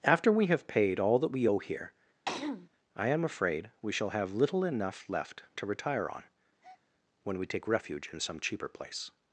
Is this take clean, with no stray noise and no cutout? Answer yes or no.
no